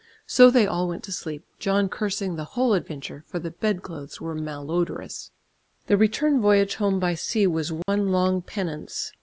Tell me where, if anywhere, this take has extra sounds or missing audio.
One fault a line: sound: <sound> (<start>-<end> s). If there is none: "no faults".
sound: dropout (7.8-7.9 s)